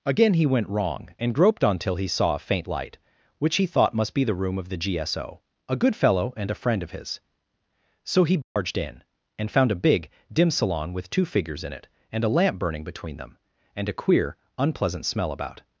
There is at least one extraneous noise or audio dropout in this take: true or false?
true